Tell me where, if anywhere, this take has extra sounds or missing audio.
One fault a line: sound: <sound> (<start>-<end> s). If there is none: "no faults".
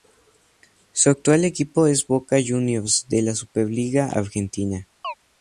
sound: chirp (5.0-5.1 s)